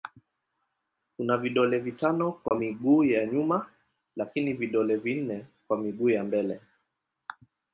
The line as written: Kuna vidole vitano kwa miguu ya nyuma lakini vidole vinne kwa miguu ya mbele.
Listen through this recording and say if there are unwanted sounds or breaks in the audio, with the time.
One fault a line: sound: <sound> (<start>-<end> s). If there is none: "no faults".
sound: dropout (2.5-2.5 s)